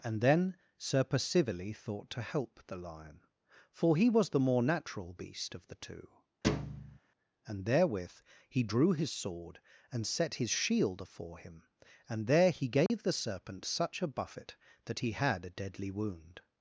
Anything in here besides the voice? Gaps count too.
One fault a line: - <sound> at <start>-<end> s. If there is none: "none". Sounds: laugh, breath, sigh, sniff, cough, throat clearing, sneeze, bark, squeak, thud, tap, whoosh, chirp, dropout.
- thud at 6.4-7.0 s
- dropout at 12.9-12.9 s